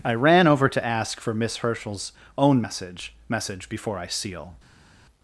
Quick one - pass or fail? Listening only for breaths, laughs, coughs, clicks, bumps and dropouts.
pass